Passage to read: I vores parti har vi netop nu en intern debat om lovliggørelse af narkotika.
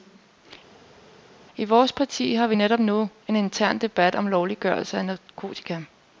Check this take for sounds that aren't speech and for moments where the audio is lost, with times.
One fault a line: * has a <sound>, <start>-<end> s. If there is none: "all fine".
all fine